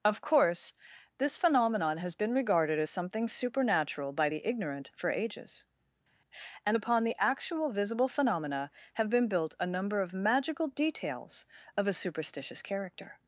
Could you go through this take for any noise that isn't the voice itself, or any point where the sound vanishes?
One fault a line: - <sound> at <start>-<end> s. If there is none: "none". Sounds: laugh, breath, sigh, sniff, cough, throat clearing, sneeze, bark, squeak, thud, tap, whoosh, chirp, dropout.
none